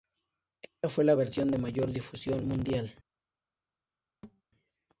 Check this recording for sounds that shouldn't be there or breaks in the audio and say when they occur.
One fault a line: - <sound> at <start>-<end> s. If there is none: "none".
- thud at 4.2-4.4 s